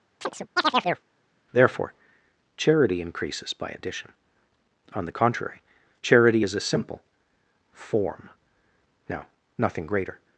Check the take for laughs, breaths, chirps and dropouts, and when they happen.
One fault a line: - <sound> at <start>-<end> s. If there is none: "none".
- chirp at 0.2-1.0 s